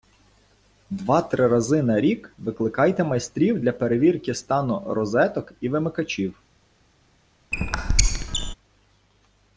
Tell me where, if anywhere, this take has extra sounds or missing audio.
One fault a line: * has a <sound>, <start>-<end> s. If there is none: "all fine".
* has a squeak, 7.5-8.5 s